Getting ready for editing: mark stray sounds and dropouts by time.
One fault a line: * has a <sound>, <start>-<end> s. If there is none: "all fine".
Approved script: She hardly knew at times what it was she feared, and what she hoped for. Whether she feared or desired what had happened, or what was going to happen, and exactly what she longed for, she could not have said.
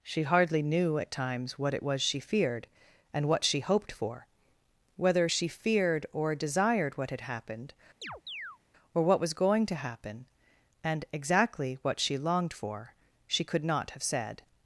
* has a chirp, 8.0-8.6 s